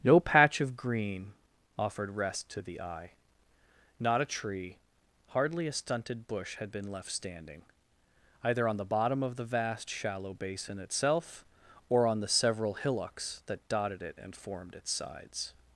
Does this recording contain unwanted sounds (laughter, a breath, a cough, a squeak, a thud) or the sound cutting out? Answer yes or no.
no